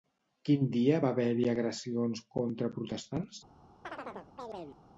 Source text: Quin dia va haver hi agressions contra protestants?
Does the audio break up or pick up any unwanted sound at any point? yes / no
yes